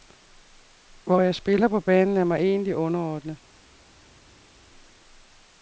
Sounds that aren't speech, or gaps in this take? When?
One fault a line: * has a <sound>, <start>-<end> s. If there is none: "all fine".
all fine